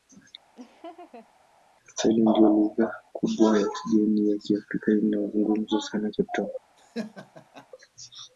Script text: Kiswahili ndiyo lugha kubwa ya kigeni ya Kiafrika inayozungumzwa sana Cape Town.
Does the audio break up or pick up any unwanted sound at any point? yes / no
yes